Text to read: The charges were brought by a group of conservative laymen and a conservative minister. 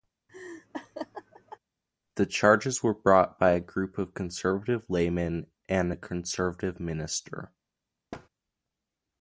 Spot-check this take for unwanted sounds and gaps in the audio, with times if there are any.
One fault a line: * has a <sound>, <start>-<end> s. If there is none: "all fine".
* has a laugh, 0.3-1.6 s
* has a thud, 8.1-8.3 s